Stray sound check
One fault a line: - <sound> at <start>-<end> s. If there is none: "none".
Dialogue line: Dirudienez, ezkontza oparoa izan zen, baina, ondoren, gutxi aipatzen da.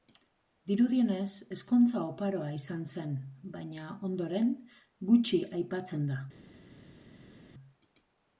none